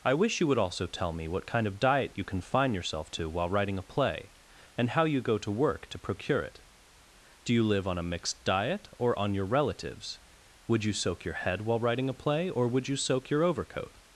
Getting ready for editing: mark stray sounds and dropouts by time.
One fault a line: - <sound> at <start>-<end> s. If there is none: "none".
none